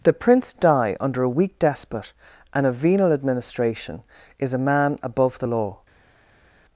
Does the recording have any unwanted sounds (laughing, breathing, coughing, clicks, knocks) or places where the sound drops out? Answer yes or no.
no